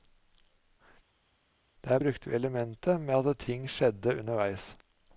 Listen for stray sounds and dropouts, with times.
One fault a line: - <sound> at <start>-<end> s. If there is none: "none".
none